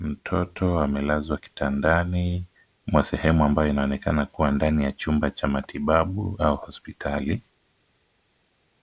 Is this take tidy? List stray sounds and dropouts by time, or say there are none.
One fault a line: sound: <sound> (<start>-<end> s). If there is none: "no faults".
no faults